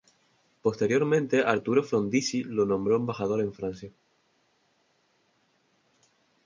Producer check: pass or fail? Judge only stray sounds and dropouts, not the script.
pass